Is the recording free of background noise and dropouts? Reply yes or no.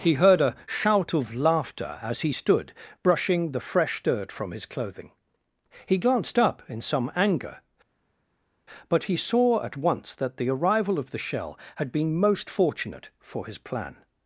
yes